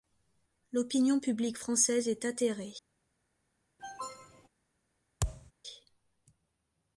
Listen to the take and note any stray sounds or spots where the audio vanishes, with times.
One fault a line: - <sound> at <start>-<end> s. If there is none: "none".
- cough at 3.8-4.5 s
- thud at 5.2-5.5 s